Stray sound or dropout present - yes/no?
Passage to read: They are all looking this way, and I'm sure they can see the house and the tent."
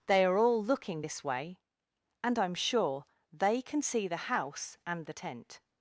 no